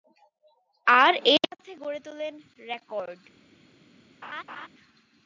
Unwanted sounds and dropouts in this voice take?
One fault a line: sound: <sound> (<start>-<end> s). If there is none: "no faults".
sound: laugh (4.2-4.7 s)